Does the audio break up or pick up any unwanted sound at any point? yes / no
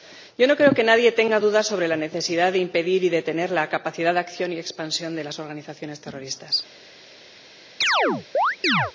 yes